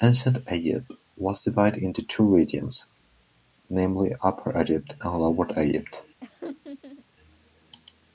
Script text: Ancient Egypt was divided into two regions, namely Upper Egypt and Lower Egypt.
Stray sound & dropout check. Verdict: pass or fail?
fail